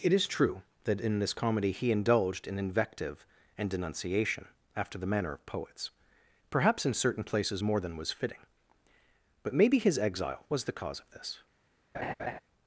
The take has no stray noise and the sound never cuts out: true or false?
false